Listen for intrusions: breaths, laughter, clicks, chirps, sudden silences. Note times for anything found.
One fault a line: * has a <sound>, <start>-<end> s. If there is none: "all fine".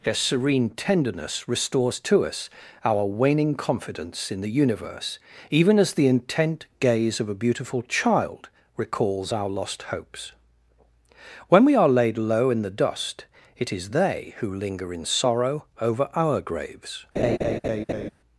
* has a laugh, 17.2-18.1 s